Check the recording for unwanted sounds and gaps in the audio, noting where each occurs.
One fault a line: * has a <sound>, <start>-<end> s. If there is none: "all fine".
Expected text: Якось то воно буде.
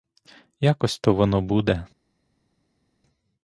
all fine